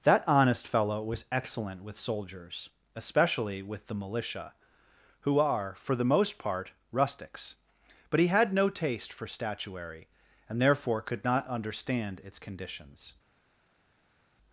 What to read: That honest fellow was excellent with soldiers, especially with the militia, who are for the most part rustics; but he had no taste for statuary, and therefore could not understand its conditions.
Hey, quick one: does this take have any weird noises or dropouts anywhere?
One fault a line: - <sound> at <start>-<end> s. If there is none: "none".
none